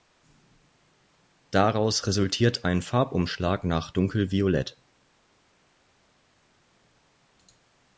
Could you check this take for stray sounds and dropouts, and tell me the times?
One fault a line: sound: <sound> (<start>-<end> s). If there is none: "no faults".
no faults